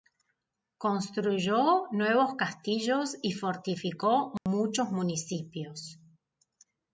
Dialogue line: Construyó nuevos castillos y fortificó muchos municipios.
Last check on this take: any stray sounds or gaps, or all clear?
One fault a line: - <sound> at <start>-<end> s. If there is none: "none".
- dropout at 4.4-4.5 s